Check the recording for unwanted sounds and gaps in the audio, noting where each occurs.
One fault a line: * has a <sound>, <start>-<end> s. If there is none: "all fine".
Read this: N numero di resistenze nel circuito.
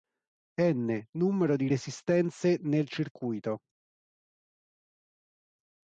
all fine